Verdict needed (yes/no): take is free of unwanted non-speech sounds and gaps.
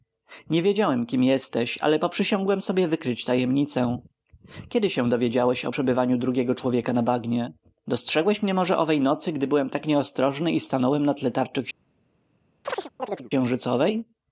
no